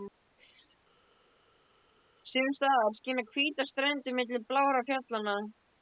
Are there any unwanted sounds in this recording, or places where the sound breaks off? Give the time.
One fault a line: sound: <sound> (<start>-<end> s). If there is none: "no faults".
no faults